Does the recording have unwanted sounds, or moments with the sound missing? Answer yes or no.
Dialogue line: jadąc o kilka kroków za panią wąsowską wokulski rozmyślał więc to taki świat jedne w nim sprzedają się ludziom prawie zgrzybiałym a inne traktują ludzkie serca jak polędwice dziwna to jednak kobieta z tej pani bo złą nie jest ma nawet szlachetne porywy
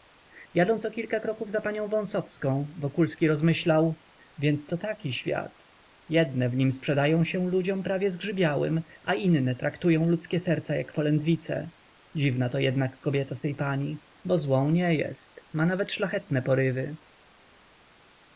no